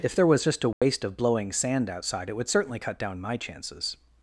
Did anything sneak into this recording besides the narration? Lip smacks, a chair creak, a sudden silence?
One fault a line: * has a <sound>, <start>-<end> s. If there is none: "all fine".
* has a dropout, 0.7-0.8 s